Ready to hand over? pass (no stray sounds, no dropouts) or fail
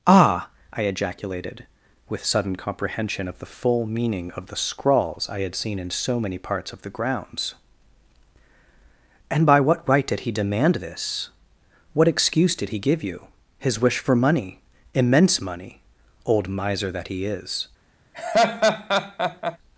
fail